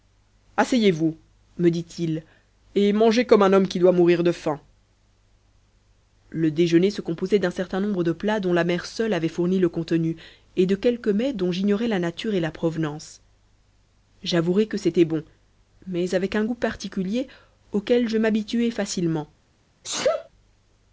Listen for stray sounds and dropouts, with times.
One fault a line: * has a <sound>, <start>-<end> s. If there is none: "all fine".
* has a sneeze, 19.8-20.3 s